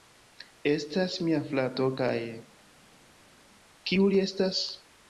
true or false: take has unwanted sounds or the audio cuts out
false